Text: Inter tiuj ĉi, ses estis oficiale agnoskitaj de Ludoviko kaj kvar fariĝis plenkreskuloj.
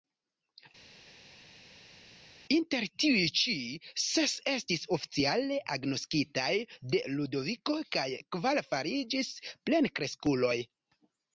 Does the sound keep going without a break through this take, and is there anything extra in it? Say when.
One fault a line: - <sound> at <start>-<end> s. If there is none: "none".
none